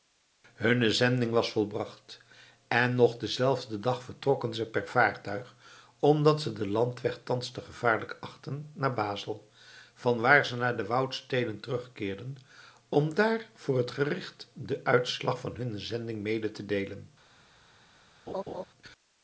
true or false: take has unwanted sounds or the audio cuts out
true